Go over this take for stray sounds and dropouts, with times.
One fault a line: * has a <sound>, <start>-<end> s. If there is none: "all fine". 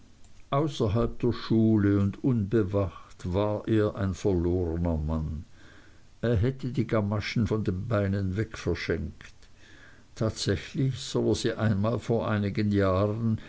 all fine